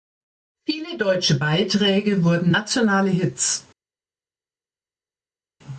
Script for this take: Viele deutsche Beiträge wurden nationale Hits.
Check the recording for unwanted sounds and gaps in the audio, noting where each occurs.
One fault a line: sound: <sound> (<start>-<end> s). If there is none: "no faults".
no faults